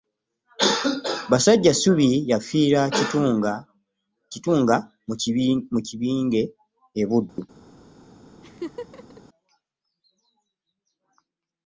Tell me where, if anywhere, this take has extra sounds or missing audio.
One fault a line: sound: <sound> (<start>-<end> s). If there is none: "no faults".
sound: dropout (7.3-7.4 s)
sound: laugh (8.4-9.2 s)